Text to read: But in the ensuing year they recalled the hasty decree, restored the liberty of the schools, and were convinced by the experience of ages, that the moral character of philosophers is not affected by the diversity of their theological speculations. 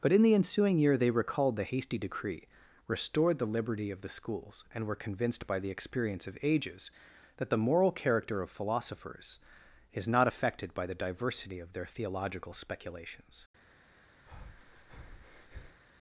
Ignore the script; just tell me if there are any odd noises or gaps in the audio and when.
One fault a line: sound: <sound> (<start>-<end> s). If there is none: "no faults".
sound: breath (14.3-15.8 s)